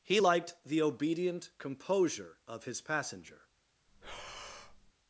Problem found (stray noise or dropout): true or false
true